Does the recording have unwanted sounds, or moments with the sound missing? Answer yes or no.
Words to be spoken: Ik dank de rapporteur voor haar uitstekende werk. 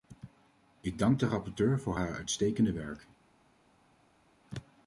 no